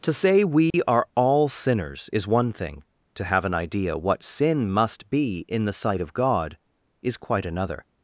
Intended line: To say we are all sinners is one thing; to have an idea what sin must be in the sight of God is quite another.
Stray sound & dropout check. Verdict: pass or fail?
fail